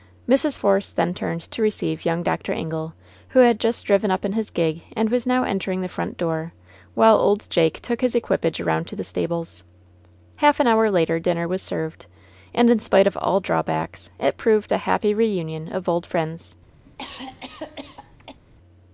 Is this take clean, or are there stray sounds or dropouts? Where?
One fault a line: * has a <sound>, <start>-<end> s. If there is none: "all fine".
* has a cough, 16.8-18.4 s